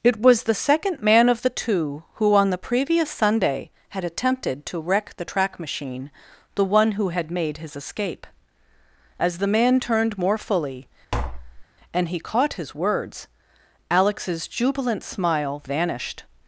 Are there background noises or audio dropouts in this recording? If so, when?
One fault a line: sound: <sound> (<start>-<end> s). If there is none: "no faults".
sound: tap (11.1-11.7 s)